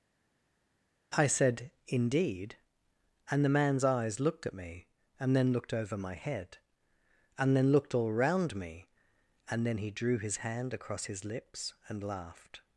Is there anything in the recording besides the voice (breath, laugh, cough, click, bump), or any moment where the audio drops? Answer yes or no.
no